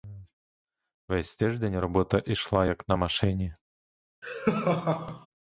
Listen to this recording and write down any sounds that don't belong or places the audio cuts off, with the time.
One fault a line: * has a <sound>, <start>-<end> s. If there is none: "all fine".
* has a laugh, 4.2-5.3 s